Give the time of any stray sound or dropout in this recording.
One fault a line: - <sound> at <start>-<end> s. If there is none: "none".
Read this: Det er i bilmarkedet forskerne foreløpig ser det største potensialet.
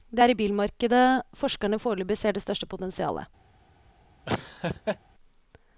- laugh at 4.3-5.0 s